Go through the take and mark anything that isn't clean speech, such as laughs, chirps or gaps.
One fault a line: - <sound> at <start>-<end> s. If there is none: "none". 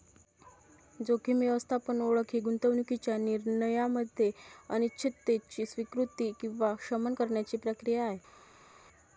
none